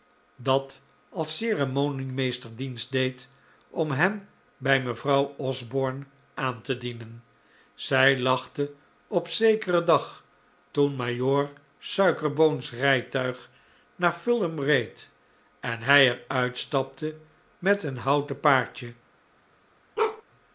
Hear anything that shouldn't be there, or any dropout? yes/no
yes